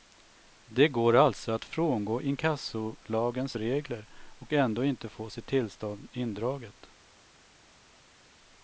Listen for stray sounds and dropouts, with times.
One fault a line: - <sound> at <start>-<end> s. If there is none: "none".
none